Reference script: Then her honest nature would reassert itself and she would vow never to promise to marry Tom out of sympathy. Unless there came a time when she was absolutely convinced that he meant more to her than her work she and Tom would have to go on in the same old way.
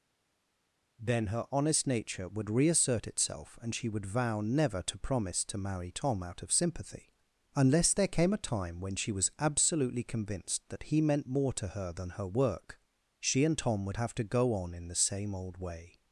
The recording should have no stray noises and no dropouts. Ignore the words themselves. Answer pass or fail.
pass